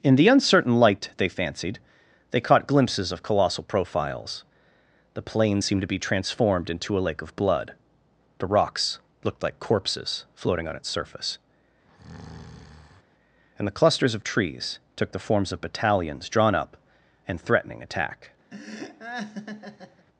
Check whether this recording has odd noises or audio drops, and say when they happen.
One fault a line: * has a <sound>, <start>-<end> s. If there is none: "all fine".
* has a breath, 11.9-13.0 s
* has a laugh, 18.5-20.1 s